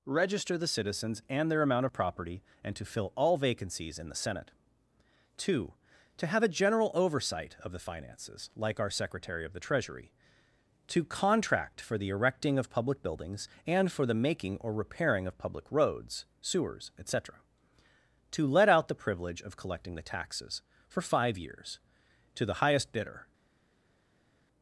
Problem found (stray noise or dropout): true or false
false